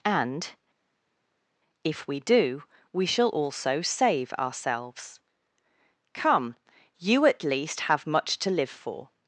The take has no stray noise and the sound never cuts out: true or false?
true